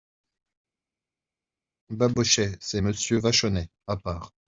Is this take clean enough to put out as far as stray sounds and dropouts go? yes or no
yes